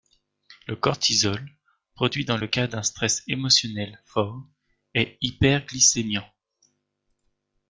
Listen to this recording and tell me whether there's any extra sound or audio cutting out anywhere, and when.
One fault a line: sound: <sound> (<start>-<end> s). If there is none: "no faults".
no faults